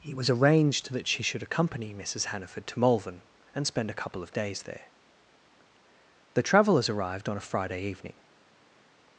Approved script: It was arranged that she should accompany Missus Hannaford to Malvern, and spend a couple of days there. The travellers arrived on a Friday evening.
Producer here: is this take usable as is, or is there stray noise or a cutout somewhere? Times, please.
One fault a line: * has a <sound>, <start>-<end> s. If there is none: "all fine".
all fine